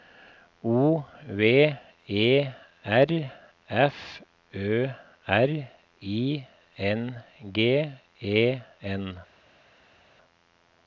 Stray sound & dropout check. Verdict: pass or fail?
pass